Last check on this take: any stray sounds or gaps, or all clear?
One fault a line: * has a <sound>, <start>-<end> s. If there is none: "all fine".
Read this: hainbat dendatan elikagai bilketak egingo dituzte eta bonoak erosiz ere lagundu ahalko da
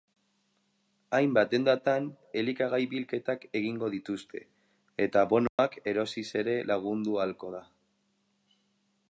* has a dropout, 5.5-5.6 s